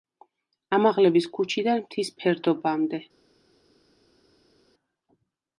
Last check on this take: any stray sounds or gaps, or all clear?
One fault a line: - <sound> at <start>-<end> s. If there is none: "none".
none